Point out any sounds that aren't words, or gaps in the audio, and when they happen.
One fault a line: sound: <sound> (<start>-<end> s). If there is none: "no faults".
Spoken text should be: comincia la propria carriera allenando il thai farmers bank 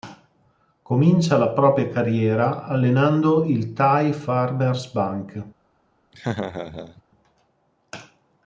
sound: laugh (6.1-7.0 s)